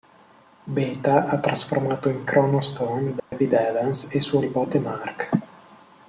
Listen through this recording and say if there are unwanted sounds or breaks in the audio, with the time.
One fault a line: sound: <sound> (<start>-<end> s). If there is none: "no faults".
sound: dropout (3.2-3.3 s)